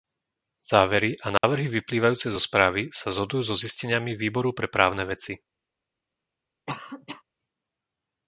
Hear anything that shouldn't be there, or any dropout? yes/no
yes